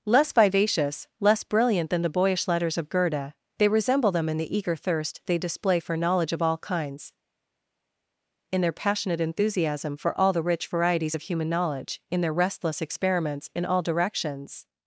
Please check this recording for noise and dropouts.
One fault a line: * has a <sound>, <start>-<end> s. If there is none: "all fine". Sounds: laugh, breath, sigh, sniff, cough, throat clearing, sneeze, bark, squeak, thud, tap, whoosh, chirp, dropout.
all fine